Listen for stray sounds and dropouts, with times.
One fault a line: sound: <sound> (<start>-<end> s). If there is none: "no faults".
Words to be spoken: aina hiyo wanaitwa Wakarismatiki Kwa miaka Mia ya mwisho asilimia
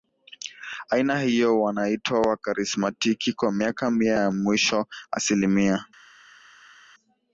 no faults